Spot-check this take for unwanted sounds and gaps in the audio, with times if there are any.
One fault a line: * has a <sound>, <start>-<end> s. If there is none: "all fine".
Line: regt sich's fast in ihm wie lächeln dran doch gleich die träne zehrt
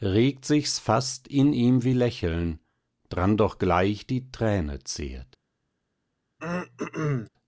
* has a throat clearing, 6.4-7.3 s